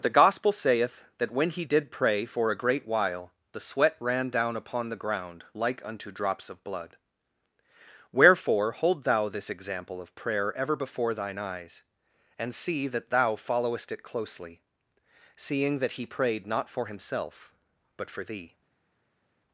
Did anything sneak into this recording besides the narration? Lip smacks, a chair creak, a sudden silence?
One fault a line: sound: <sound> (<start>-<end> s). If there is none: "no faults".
no faults